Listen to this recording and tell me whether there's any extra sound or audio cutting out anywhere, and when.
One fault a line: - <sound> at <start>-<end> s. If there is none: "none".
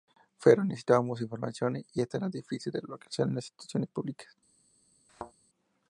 - thud at 5.1-5.3 s